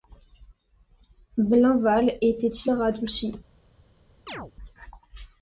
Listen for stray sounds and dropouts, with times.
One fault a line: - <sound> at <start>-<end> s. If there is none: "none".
- chirp at 4.3-4.5 s